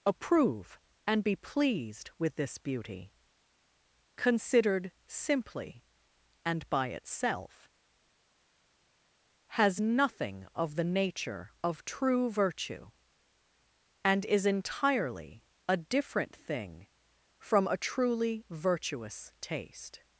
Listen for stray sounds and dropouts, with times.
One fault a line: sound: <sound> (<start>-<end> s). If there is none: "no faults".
no faults